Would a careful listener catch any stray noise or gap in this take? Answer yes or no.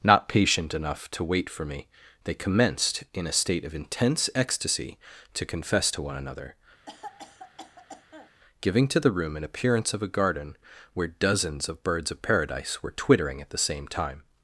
yes